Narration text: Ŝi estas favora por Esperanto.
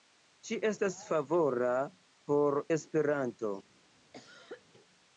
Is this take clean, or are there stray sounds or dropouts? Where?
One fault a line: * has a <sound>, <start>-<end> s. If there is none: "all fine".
* has a cough, 4.1-4.6 s